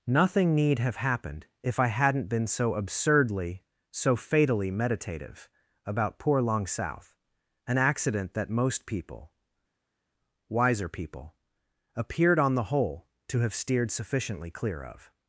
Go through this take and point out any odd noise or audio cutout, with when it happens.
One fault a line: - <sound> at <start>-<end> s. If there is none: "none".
none